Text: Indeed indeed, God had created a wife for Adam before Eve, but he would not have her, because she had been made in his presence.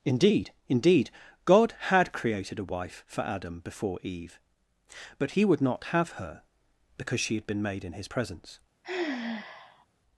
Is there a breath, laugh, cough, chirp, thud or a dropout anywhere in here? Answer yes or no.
yes